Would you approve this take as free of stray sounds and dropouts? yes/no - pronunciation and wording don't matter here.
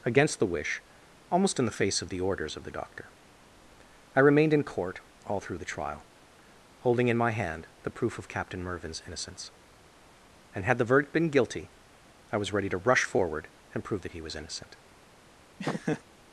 no